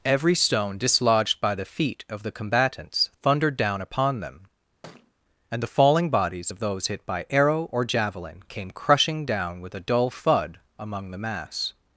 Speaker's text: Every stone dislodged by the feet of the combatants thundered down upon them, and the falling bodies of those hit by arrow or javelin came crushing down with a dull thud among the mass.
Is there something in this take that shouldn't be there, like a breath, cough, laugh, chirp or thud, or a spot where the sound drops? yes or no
yes